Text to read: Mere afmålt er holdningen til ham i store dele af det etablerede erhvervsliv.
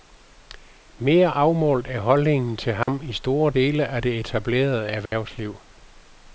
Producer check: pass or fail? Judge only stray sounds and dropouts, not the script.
fail